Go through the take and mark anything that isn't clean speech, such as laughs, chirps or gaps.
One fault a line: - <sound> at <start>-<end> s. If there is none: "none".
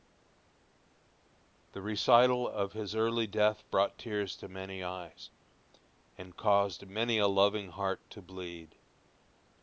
none